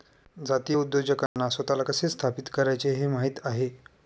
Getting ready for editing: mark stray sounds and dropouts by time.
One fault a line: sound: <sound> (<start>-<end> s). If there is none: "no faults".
sound: dropout (1.3-1.4 s)